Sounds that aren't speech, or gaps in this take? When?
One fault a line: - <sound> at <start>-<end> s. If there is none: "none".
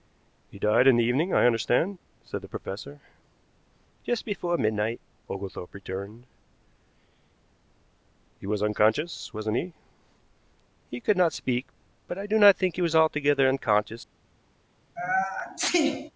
- sneeze at 15.0-16.1 s